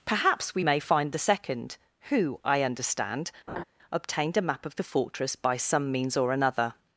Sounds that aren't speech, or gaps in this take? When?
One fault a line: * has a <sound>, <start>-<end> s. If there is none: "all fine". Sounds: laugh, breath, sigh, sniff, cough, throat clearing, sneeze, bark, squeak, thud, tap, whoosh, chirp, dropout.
* has a laugh, 3.5-3.6 s